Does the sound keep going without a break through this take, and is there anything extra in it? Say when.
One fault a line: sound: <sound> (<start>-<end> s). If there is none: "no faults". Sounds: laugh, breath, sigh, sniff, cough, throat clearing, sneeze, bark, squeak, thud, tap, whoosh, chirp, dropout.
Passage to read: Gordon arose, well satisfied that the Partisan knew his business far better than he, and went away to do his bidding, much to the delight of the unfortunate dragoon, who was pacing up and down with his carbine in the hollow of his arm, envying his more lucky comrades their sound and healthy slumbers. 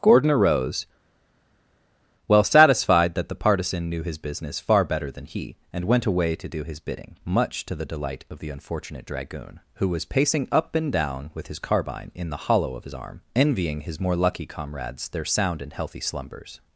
no faults